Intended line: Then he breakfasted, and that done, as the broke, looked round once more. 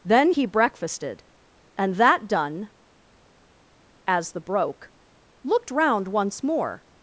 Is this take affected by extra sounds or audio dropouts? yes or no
no